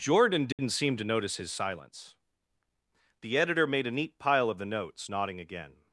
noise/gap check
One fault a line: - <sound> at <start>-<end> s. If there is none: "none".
- dropout at 0.5-0.6 s